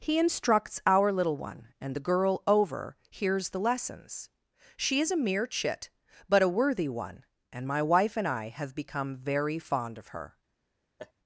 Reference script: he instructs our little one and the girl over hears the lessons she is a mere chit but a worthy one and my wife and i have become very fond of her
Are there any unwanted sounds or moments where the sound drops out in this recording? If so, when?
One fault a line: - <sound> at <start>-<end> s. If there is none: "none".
- laugh at 11.0-11.1 s